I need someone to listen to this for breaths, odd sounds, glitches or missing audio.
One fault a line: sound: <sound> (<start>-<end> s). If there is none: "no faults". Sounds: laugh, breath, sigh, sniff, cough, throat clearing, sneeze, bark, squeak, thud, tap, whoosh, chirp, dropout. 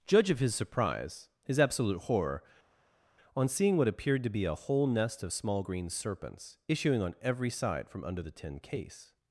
no faults